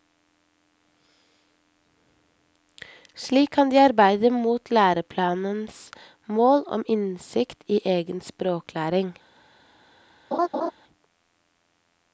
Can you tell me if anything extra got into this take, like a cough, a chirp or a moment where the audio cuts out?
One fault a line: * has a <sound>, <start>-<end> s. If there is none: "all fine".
* has a laugh, 10.3-10.7 s